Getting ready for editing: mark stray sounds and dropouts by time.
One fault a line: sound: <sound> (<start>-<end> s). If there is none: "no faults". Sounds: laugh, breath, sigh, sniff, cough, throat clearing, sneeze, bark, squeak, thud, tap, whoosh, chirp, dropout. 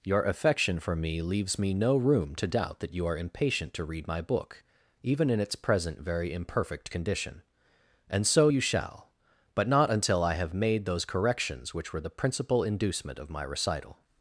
no faults